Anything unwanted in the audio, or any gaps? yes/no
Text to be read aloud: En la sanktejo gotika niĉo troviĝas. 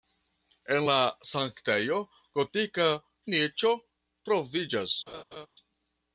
yes